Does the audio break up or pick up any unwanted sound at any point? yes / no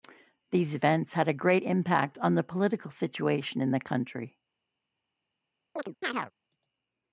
yes